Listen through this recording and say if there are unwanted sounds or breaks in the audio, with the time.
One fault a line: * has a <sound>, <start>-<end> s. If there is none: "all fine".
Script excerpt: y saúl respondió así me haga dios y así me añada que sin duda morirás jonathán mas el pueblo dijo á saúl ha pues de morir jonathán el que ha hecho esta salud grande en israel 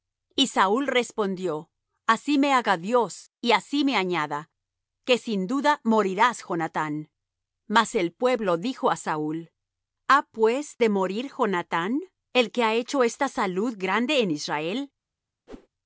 * has a whoosh, 15.5-15.7 s